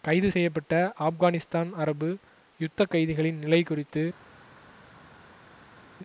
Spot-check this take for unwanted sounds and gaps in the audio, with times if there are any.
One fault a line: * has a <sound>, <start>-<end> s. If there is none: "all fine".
all fine